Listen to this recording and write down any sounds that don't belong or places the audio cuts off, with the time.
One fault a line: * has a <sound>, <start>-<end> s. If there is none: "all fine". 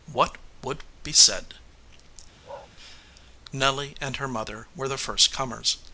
* has a bark, 2.4-2.7 s